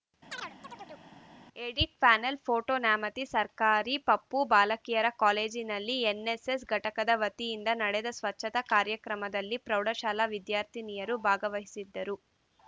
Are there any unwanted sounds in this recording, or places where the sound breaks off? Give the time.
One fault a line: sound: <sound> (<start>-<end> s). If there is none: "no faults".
sound: chirp (0.3-1.1 s)